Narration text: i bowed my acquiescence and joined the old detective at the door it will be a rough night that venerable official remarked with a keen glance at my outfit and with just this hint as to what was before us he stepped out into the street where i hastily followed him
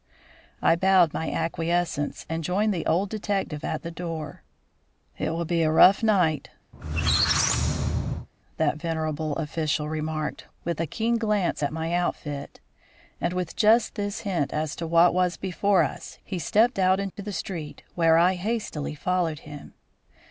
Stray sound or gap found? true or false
true